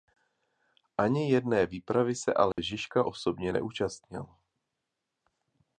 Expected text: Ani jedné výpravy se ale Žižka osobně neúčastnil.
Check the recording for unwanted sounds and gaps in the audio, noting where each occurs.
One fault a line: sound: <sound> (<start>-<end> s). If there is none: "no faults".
sound: dropout (2.5-2.6 s)